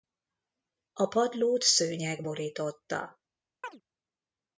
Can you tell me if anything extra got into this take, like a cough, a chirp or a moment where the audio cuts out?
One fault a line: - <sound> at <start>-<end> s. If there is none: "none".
- chirp at 3.6-3.8 s